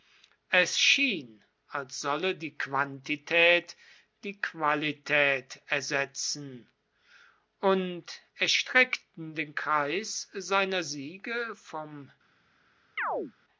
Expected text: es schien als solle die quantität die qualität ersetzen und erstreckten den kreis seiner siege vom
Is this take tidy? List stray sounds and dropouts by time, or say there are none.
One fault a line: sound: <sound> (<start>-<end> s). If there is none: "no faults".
sound: chirp (13.0-13.3 s)